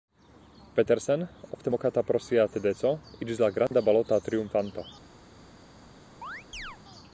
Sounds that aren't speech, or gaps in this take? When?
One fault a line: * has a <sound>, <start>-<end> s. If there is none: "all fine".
* has a dropout, 3.7-3.7 s
* has a chirp, 6.2-6.8 s